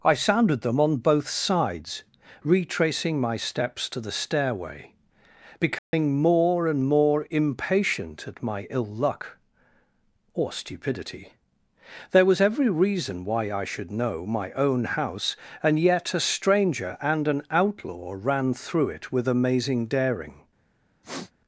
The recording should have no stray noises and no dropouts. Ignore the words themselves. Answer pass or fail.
fail